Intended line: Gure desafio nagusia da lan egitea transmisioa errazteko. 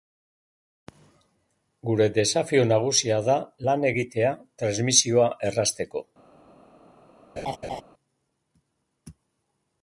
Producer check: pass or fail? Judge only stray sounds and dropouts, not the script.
fail